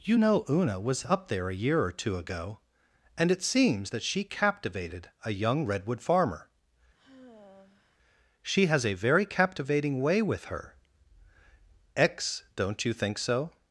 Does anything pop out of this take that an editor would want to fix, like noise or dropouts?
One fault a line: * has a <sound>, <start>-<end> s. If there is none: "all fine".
* has a sigh, 6.9-8.0 s